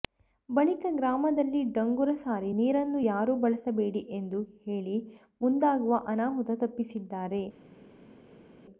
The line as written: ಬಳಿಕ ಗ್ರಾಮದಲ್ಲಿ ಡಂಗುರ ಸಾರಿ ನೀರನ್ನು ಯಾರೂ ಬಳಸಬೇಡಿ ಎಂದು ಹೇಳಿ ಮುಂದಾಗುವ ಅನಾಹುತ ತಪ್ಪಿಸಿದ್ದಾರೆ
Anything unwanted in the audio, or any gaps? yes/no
no